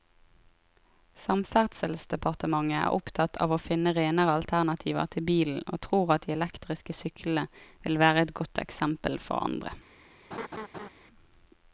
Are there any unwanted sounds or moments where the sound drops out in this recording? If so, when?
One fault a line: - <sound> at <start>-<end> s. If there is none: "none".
- laugh at 10.3-10.9 s